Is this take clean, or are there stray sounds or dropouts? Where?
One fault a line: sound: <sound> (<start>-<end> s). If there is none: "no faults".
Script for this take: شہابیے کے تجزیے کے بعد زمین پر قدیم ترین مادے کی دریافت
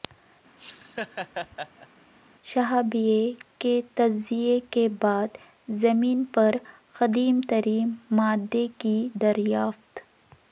sound: laugh (0.6-1.9 s)